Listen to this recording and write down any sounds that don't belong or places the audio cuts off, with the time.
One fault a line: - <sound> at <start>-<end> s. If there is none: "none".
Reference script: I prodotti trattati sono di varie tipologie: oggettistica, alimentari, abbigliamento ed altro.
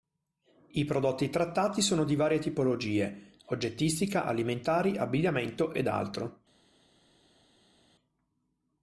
none